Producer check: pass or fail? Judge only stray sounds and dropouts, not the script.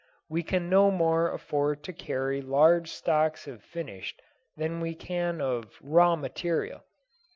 pass